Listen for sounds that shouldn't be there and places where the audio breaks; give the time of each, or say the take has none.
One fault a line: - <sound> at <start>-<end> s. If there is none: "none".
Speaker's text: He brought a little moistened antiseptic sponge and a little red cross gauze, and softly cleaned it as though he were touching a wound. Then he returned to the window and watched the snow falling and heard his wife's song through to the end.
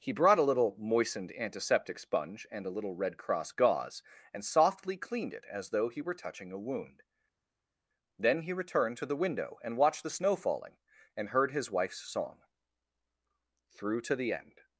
none